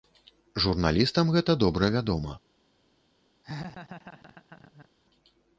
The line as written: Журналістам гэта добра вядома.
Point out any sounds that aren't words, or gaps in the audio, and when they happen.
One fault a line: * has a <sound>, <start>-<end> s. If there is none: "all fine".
* has a laugh, 3.4-4.9 s